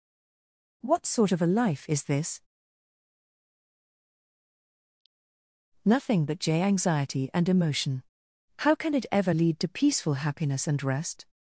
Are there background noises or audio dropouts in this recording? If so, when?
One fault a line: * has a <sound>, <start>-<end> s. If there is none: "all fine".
all fine